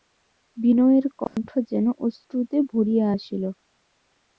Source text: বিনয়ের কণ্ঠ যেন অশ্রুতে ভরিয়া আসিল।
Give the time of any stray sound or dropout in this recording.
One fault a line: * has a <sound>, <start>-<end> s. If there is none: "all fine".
* has a dropout, 1.3-1.4 s